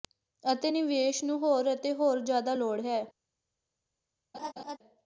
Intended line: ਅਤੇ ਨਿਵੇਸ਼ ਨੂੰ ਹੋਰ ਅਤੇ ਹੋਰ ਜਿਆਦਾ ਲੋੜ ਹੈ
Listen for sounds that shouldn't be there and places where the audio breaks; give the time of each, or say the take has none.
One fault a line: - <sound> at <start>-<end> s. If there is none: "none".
- laugh at 4.3-4.8 s